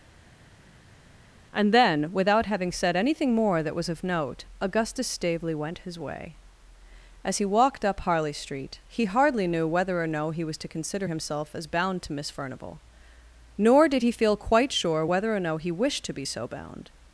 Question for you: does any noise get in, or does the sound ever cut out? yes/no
no